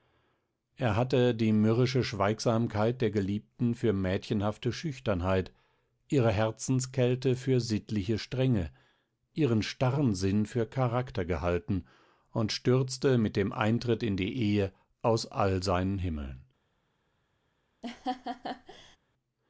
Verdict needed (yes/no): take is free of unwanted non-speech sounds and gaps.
no